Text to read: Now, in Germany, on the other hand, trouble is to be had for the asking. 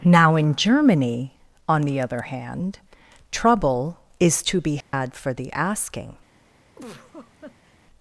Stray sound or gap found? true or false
true